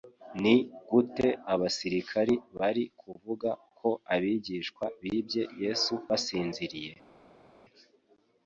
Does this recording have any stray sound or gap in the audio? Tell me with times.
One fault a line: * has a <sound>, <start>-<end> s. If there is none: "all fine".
all fine